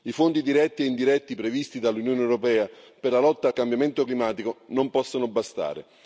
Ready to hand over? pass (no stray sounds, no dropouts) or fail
pass